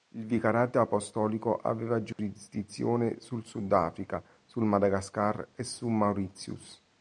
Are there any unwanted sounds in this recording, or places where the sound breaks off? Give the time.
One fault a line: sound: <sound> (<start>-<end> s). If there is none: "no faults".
sound: dropout (2.1-2.2 s)